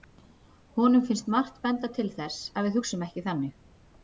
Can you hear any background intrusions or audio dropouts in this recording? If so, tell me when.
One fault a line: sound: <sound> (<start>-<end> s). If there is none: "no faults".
no faults